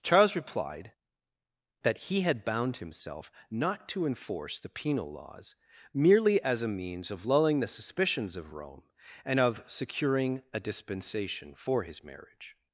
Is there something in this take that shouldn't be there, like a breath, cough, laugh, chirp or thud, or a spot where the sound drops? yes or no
no